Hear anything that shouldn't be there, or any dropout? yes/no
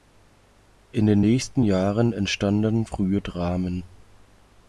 no